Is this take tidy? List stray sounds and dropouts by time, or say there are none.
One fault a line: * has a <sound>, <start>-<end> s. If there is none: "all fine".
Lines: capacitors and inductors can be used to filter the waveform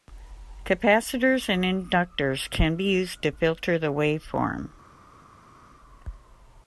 all fine